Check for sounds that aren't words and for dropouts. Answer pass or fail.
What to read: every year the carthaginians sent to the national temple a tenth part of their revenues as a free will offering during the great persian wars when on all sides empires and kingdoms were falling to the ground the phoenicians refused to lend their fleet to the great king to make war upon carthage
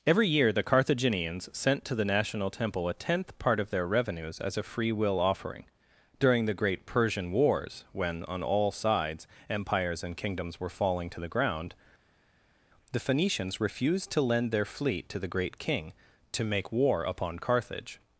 pass